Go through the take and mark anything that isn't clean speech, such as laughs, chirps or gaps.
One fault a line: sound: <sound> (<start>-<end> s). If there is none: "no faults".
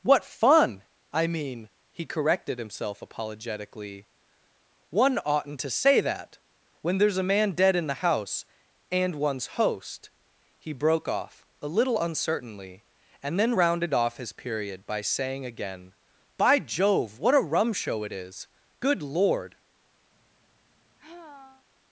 sound: sigh (20.1-21.7 s)